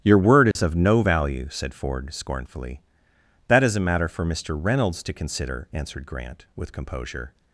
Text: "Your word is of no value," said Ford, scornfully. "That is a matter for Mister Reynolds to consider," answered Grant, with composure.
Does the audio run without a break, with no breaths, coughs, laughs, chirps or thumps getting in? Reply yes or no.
no